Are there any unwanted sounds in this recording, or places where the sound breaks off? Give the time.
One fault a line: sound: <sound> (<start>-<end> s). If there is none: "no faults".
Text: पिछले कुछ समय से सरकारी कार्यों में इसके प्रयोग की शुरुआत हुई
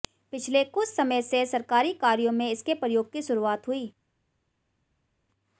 no faults